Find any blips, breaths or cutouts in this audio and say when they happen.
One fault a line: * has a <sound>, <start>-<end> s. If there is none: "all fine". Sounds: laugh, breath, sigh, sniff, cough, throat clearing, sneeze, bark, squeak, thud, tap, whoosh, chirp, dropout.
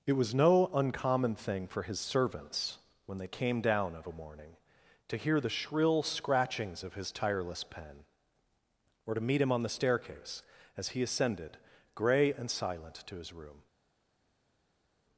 all fine